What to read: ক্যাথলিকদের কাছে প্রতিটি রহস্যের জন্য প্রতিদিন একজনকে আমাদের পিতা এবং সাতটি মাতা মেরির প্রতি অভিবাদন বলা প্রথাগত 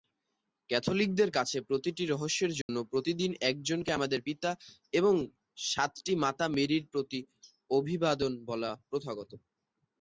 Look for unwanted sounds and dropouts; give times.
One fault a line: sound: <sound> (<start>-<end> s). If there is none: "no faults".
sound: dropout (2.6-2.7 s)